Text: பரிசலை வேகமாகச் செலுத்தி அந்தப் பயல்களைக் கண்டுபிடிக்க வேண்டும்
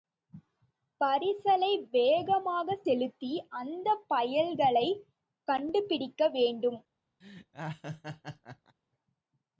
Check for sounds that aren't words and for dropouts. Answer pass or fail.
fail